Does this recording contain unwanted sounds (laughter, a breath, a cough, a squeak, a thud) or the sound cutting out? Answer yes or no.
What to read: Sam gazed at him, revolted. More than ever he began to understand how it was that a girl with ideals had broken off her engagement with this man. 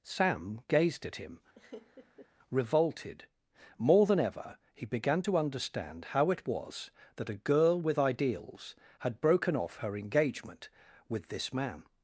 yes